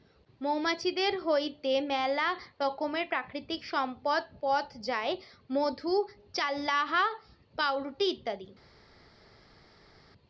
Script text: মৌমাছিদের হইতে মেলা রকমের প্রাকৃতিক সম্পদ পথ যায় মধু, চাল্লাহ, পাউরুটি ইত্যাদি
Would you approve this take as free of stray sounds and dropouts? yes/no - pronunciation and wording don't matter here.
yes